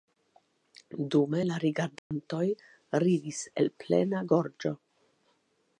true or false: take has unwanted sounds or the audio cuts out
true